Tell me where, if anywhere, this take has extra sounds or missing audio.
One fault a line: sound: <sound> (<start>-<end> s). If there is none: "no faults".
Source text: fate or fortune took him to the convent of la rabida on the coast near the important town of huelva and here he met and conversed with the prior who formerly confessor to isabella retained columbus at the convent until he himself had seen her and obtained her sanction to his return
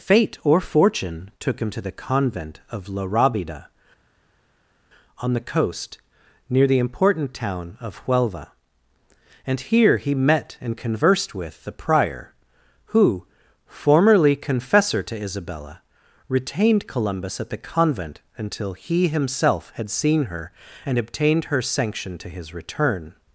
no faults